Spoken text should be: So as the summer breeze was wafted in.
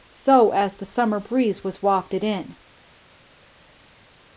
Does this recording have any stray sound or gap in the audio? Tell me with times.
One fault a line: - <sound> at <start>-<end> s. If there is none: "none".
none